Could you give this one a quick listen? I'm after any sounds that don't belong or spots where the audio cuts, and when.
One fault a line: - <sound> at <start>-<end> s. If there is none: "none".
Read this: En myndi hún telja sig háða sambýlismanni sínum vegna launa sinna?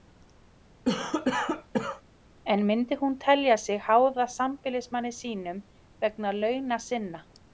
- cough at 0.9-2.0 s